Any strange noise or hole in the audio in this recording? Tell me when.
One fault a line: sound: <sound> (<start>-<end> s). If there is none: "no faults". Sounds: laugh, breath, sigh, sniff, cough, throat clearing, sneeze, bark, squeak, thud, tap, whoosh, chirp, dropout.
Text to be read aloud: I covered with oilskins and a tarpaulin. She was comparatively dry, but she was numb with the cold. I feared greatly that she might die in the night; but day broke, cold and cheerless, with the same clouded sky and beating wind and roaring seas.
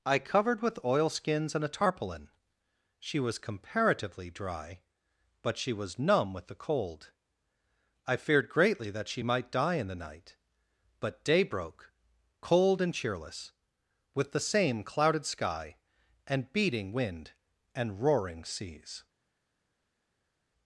no faults